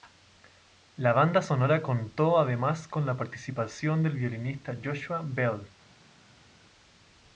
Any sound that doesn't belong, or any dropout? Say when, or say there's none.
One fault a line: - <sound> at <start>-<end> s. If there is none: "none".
none